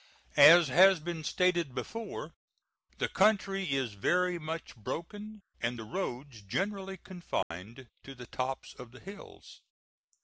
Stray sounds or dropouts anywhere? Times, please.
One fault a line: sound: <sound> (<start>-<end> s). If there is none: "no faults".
sound: dropout (7.4-7.5 s)